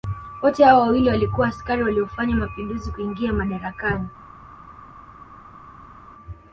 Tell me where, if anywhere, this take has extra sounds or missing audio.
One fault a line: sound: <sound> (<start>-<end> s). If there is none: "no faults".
no faults